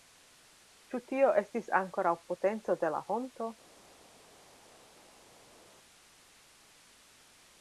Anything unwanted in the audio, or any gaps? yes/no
no